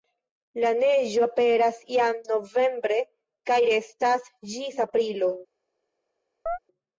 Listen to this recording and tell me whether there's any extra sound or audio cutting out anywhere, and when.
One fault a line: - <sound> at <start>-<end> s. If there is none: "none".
- chirp at 6.5-6.6 s